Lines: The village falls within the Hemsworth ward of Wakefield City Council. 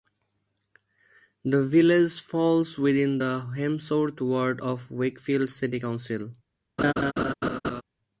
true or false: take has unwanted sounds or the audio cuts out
true